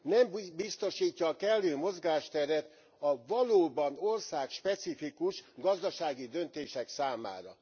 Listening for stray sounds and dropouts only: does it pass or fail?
pass